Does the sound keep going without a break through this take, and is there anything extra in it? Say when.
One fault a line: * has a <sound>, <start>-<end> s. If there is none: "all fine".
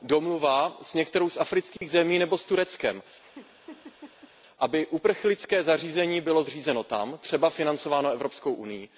* has a dropout, 1.8-1.8 s
* has a laugh, 3.2-4.3 s